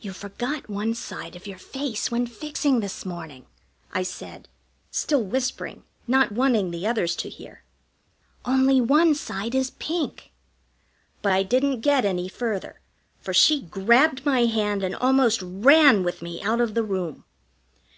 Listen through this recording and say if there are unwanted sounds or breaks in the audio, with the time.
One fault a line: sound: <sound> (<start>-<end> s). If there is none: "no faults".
no faults